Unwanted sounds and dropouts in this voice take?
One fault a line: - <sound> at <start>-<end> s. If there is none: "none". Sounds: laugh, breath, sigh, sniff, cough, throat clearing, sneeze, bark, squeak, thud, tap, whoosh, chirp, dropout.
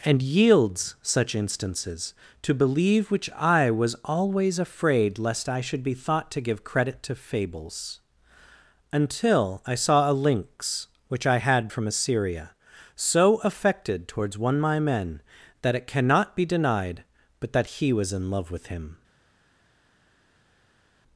none